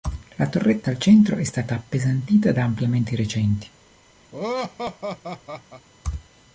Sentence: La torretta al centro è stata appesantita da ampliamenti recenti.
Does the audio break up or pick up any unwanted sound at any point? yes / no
yes